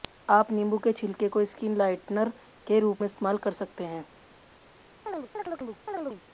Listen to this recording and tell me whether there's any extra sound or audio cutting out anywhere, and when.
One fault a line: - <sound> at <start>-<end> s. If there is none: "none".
- chirp at 5.1-6.2 s